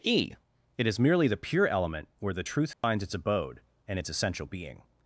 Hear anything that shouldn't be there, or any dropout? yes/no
yes